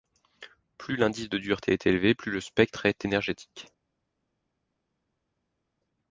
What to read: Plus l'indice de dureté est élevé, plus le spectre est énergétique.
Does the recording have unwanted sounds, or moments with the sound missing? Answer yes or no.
no